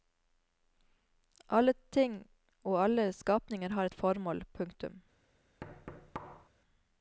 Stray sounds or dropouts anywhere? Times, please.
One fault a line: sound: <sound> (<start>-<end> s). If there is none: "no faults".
sound: thud (5.6-6.5 s)